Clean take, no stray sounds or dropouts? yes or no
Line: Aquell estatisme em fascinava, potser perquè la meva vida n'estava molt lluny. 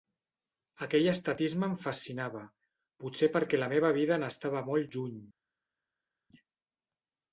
yes